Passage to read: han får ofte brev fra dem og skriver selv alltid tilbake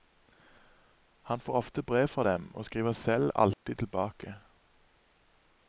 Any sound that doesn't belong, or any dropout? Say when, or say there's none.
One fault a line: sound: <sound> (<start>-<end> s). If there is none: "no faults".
sound: dropout (3.5-3.7 s)